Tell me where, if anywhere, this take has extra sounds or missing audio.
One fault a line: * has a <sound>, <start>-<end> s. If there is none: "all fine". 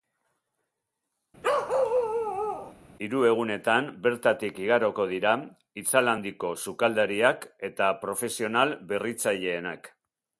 * has a bark, 1.4-2.7 s